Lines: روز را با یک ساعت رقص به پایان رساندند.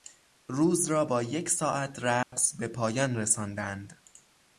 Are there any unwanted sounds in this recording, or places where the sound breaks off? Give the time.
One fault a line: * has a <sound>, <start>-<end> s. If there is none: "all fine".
* has a dropout, 2.2-2.3 s